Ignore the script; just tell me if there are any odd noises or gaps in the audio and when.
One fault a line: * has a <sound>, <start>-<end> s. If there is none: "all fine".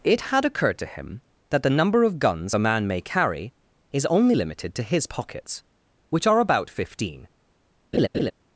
* has a laugh, 7.9-8.3 s